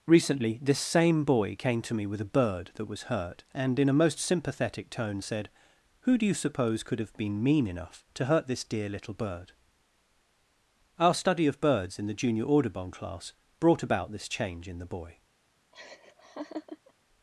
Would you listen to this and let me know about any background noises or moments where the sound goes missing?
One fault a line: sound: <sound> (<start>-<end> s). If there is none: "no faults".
sound: laugh (15.7-16.9 s)